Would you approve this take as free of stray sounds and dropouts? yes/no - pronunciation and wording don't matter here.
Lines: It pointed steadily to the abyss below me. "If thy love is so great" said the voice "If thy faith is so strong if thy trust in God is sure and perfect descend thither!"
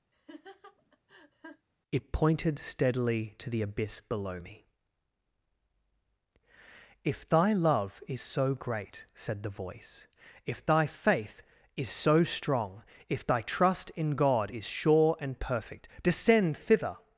no